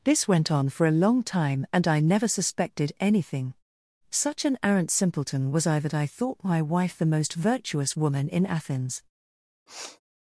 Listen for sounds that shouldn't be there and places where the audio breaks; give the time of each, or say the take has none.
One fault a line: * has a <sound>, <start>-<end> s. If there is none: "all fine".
* has a sniff, 9.7-10.0 s